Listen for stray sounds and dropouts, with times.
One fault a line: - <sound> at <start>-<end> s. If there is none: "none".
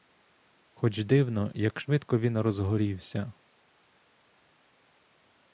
none